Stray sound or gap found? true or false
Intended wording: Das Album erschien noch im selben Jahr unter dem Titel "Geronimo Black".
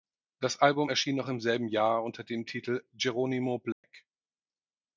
true